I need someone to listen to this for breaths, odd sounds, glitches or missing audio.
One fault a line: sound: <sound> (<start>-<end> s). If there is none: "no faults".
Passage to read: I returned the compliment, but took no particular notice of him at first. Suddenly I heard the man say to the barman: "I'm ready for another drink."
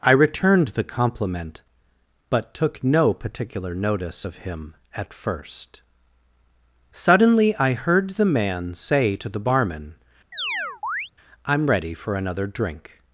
sound: chirp (10.3-11.1 s)